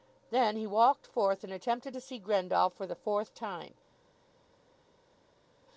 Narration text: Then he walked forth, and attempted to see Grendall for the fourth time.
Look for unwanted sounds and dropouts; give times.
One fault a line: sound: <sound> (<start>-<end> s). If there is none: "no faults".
no faults